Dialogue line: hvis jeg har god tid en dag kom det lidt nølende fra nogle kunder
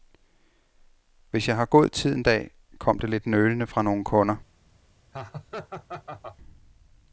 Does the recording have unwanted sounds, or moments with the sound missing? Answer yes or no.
yes